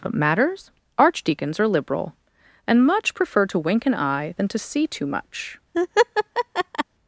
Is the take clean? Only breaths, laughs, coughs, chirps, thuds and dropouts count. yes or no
no